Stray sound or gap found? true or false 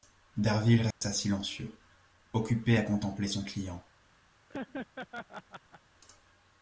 true